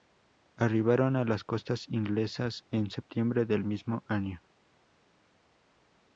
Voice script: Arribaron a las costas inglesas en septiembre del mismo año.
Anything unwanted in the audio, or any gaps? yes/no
no